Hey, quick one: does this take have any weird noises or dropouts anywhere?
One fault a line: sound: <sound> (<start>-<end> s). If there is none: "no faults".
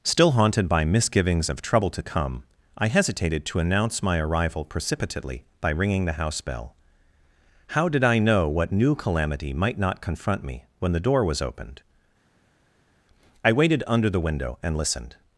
no faults